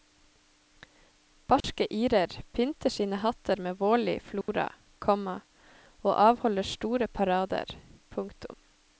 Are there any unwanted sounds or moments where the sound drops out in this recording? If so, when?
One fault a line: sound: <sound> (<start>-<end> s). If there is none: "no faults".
sound: dropout (1.6-1.6 s)
sound: dropout (4.4-4.5 s)